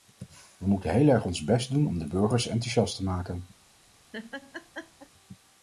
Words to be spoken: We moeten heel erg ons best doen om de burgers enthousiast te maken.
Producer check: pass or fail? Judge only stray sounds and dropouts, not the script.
fail